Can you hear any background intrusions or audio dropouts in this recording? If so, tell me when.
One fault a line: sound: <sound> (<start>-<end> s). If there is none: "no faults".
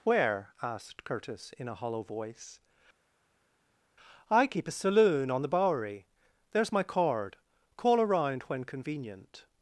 no faults